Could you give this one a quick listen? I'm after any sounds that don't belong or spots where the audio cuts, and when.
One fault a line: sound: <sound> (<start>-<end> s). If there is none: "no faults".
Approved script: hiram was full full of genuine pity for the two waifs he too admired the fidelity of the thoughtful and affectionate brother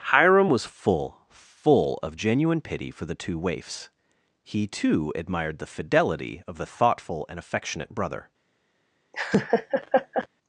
sound: laugh (9.1-10.3 s)